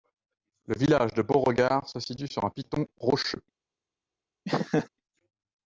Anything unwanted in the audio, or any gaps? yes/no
yes